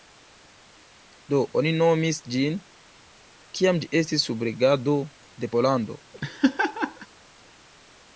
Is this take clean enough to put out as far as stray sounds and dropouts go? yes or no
no